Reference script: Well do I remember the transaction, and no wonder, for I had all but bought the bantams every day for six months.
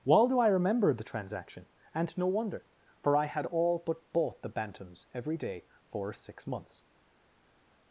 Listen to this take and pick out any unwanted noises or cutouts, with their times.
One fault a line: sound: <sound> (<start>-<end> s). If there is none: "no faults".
no faults